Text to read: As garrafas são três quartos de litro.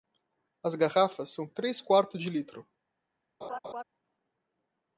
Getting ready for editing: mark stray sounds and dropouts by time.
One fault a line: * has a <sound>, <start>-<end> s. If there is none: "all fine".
* has a laugh, 3.4-3.8 s